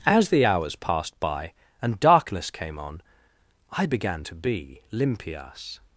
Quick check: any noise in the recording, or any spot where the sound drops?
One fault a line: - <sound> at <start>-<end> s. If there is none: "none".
none